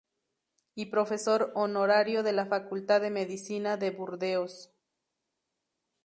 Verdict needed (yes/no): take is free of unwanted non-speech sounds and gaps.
yes